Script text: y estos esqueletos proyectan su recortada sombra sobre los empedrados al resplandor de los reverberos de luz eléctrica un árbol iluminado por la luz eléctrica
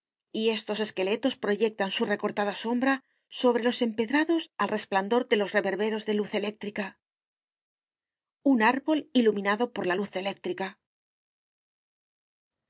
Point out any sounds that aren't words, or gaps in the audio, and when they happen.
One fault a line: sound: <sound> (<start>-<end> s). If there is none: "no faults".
no faults